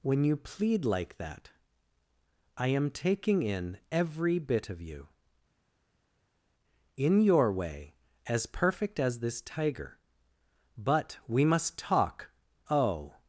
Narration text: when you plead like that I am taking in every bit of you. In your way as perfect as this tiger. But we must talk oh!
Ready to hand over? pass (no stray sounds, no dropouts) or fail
pass